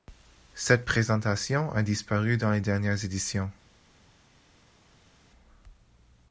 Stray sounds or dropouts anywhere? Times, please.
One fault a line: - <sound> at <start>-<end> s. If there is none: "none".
none